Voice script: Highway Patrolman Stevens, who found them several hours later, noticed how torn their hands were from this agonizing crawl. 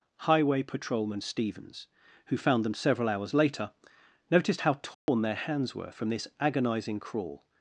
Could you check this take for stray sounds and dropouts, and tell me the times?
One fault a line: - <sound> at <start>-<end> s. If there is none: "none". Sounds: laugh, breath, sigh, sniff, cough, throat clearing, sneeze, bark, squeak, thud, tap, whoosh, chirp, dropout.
- dropout at 4.9-5.1 s